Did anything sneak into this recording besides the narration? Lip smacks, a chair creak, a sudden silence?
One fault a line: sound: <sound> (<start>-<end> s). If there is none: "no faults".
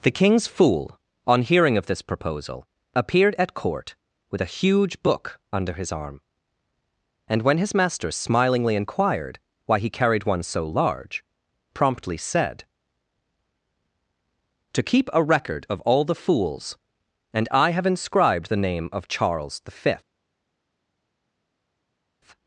no faults